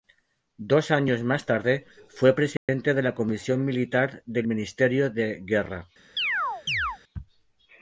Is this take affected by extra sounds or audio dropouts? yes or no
yes